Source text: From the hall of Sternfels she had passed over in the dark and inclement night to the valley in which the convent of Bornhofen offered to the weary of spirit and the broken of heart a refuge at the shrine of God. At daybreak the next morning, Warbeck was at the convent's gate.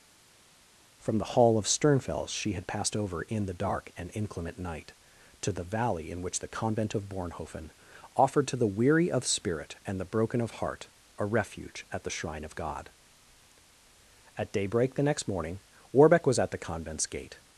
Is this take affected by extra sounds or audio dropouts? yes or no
no